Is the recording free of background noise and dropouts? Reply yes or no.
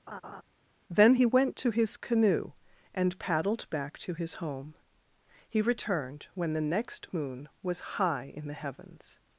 no